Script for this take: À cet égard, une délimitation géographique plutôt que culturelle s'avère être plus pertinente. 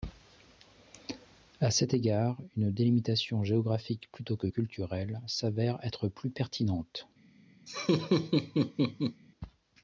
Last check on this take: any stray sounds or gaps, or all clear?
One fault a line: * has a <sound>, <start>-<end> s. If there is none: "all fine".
* has a laugh, 7.7-9.2 s